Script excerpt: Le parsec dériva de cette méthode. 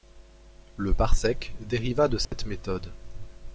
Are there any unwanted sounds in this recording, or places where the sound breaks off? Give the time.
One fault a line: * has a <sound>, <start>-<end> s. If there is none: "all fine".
* has a dropout, 2.2-2.3 s